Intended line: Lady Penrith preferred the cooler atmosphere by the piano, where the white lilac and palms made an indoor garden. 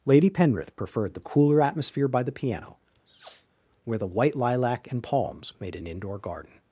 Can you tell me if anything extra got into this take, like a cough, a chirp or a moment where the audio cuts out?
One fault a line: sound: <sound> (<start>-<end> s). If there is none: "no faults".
sound: sniff (3.1-3.5 s)